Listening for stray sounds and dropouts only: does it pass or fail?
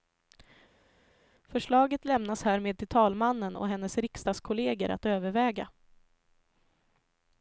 pass